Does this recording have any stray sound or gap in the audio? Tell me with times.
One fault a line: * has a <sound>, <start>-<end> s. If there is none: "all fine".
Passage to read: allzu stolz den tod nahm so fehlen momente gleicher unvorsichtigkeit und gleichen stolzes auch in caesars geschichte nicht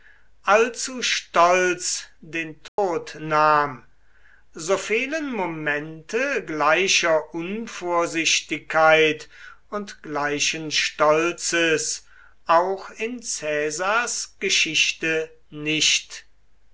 * has a dropout, 2.7-2.8 s